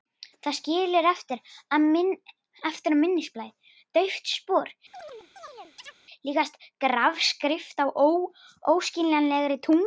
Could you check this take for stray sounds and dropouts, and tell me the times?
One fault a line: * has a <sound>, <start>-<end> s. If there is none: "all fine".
* has a chirp, 4.9-6.0 s